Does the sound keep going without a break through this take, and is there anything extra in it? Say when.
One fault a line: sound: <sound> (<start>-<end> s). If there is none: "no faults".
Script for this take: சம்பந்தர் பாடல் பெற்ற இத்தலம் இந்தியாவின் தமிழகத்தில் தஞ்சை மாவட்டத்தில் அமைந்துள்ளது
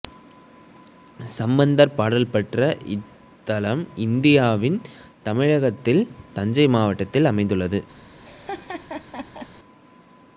sound: laugh (8.2-9.5 s)